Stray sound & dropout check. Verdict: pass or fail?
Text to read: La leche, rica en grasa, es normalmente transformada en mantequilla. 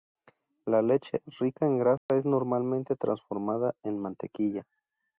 fail